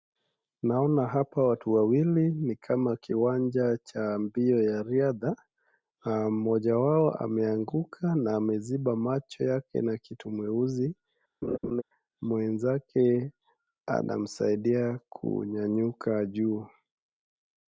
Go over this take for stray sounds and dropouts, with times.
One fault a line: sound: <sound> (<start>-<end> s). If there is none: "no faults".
sound: laugh (11.4-11.8 s)